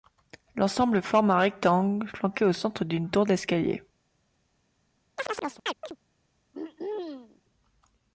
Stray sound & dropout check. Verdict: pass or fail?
fail